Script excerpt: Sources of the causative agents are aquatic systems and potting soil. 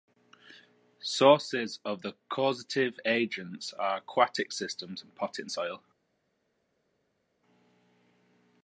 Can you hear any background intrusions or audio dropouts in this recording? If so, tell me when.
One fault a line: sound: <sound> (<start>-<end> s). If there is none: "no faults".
no faults